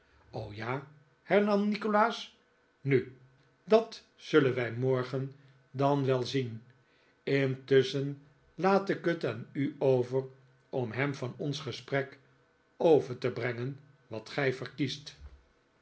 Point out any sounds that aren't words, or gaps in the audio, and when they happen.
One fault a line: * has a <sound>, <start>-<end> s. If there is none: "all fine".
all fine